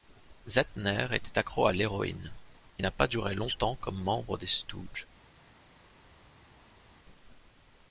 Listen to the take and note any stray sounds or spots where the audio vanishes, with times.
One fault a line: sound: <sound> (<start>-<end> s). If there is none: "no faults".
no faults